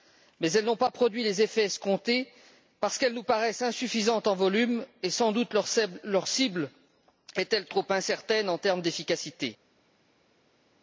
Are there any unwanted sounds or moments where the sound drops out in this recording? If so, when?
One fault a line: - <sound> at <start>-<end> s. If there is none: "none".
none